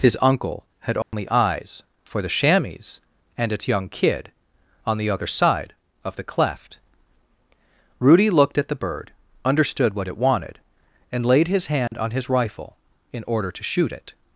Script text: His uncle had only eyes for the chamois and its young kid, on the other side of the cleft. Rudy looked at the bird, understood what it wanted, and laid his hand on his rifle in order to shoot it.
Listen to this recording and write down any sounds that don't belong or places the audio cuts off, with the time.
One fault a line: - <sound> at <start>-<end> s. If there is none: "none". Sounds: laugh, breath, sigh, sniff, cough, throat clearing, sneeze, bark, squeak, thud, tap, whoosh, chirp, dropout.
- dropout at 1.0-1.1 s
- dropout at 11.9-11.9 s